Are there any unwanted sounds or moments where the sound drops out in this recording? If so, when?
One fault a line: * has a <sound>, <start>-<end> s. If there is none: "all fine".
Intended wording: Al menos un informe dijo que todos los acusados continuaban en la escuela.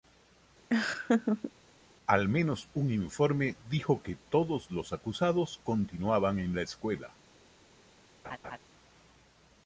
* has a laugh, 0.7-1.5 s
* has a laugh, 8.2-8.6 s